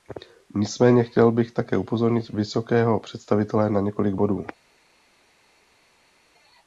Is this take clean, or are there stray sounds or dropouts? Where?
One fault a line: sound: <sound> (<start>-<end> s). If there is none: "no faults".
no faults